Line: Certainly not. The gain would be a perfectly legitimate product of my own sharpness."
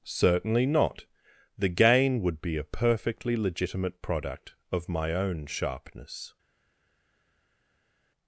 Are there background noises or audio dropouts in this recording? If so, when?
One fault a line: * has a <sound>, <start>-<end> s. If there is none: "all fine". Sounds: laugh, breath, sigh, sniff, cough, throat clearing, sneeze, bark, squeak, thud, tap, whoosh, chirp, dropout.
all fine